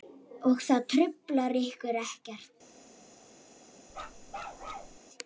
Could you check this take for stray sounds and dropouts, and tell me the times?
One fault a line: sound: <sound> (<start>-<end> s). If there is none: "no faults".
sound: bark (3.9-5.0 s)